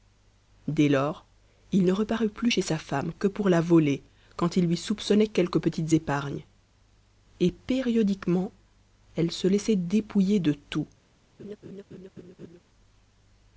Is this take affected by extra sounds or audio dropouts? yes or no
yes